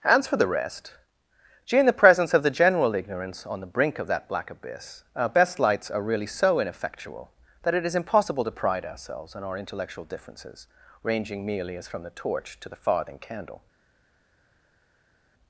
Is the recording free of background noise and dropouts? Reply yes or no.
yes